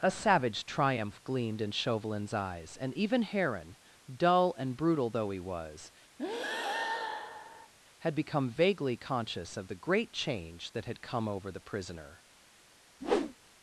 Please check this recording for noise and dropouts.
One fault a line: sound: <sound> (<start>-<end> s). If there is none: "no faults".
sound: breath (6.2-7.7 s)
sound: whoosh (13.0-13.4 s)